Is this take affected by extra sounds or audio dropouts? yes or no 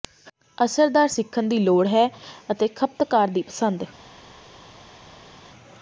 no